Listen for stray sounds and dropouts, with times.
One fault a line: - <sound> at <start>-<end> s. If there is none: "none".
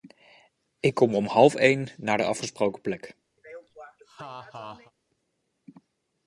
- laugh at 3.4-4.9 s